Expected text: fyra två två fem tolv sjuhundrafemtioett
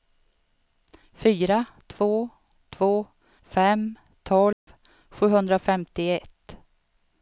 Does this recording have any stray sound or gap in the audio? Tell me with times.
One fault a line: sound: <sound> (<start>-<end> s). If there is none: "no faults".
sound: dropout (4.5-4.7 s)